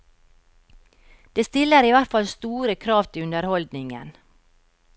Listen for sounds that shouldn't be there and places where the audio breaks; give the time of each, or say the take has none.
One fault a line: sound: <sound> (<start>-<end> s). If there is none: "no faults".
no faults